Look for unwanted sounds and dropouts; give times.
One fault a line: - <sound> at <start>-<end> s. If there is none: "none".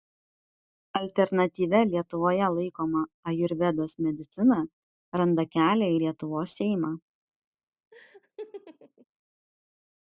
- laugh at 7.9-9.1 s